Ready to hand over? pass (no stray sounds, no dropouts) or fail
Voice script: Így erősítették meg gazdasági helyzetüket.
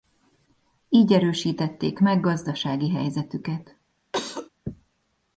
fail